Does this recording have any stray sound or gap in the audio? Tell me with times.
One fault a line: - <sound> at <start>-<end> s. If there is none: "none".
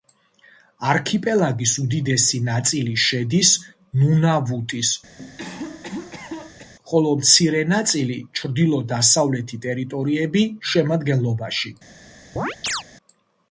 - cough at 5.2-6.7 s
- chirp at 12.4-12.8 s